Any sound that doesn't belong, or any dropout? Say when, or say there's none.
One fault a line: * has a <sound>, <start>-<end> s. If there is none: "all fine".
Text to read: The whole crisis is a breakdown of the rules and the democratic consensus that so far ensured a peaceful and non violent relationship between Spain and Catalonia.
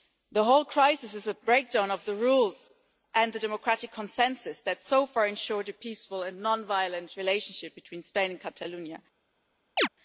* has a chirp, 9.8-9.9 s